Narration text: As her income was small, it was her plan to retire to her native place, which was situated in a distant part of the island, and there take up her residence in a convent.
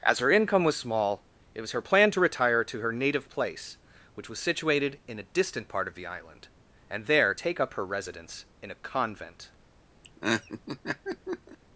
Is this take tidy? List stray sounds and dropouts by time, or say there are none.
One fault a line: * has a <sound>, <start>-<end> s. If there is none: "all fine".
* has a laugh, 10.0-11.6 s